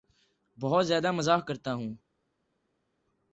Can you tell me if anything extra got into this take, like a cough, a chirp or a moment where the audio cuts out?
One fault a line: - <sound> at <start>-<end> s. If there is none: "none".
none